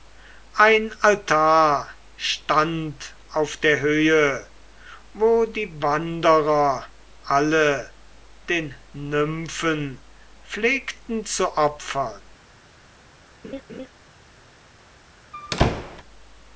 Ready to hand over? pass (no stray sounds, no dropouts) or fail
fail